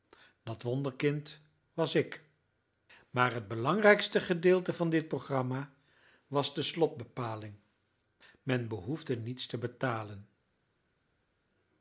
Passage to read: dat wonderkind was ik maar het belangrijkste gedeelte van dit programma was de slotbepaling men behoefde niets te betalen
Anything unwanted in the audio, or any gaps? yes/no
no